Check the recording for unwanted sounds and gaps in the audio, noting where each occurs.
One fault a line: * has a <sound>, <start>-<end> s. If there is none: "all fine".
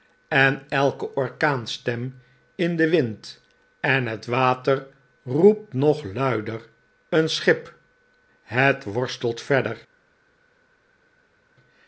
all fine